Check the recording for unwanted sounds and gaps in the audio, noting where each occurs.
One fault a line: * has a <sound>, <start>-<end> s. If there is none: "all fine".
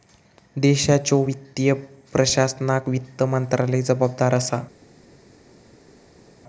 all fine